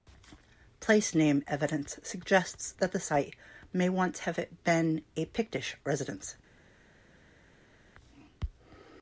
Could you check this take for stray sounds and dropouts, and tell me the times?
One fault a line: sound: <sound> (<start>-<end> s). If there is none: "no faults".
no faults